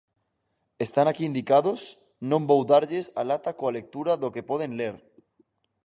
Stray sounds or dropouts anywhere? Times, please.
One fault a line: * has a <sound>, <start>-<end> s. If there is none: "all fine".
all fine